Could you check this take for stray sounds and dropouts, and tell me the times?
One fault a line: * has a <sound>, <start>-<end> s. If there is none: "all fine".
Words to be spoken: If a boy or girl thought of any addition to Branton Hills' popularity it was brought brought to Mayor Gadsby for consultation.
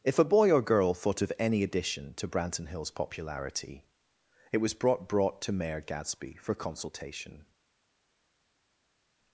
all fine